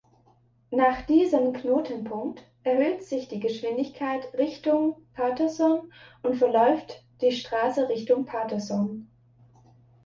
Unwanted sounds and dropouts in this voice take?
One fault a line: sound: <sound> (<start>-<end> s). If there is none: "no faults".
no faults